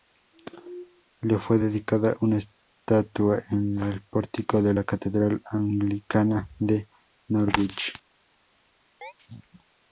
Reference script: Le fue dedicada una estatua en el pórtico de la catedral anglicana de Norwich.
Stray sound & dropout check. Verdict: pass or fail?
fail